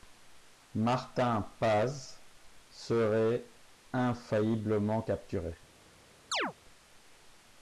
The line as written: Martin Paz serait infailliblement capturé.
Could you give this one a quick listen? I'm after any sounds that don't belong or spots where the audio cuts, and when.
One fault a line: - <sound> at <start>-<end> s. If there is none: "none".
- chirp at 6.3-6.5 s